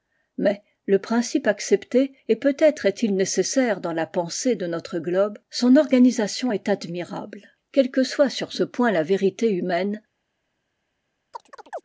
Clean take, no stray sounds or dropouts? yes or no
no